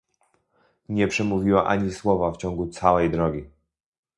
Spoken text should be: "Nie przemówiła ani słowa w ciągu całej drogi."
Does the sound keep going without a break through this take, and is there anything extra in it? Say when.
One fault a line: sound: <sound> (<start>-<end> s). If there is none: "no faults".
no faults